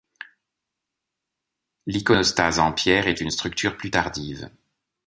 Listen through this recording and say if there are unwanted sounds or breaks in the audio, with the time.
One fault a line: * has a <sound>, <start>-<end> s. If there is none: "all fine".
all fine